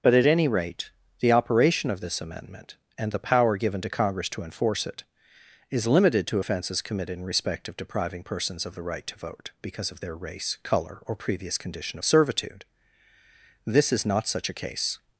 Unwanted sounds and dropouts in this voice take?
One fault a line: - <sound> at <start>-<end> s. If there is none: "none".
none